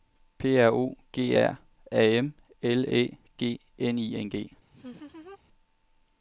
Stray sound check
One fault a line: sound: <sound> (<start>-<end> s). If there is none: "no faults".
sound: laugh (4.7-5.4 s)